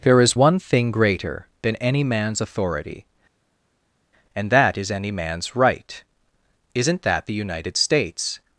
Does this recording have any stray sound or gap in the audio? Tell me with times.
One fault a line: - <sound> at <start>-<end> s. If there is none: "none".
none